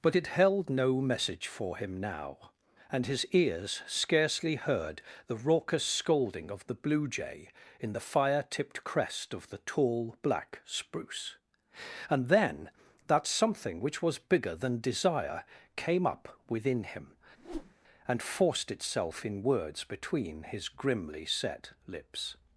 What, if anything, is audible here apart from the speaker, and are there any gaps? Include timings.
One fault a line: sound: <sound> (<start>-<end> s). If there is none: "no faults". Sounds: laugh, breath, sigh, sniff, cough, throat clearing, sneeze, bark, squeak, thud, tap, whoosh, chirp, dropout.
sound: whoosh (17.4-17.7 s)